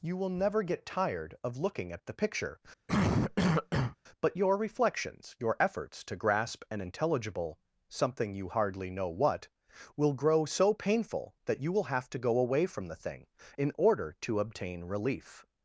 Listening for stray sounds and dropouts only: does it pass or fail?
fail